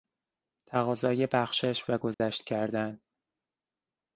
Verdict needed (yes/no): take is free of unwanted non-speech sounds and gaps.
no